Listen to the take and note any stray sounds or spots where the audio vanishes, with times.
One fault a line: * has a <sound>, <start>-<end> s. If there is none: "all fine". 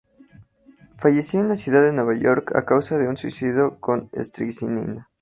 all fine